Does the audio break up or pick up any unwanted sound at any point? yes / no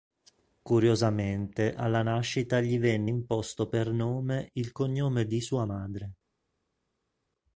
no